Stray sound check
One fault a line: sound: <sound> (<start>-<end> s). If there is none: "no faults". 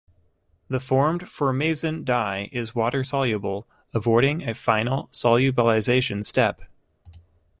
no faults